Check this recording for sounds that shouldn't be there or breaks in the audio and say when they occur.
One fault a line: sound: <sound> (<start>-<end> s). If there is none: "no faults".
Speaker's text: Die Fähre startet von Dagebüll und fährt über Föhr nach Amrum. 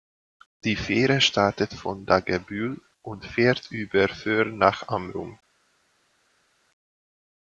no faults